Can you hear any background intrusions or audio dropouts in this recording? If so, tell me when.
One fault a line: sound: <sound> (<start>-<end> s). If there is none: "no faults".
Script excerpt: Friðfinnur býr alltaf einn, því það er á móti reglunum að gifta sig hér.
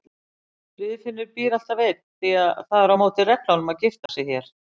sound: dropout (4.1-4.1 s)